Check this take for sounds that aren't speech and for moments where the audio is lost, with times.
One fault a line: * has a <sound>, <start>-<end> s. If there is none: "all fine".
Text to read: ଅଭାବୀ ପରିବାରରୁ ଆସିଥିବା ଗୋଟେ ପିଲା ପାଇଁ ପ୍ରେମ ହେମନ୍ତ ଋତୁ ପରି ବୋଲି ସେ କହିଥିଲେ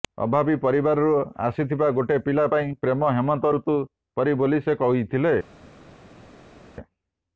all fine